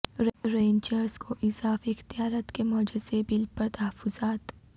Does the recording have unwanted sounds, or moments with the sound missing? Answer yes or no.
no